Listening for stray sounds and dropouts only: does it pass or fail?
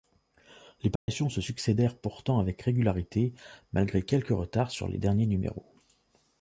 fail